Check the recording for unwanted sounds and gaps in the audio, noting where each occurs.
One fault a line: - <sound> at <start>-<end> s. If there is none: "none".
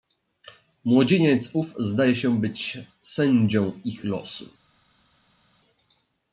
none